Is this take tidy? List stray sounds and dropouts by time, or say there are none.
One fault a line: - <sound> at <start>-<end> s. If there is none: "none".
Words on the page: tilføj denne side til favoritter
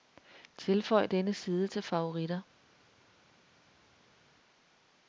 none